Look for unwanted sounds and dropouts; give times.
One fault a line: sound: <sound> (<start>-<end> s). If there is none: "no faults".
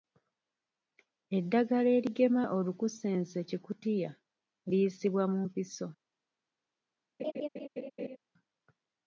sound: laugh (7.2-8.2 s)